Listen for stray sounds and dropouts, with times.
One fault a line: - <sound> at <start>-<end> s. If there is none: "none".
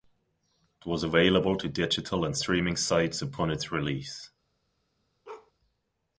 - bark at 5.2-5.5 s